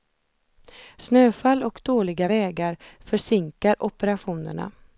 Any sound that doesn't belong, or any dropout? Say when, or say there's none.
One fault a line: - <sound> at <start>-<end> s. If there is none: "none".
none